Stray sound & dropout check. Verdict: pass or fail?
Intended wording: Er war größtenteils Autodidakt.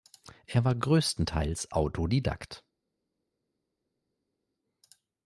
pass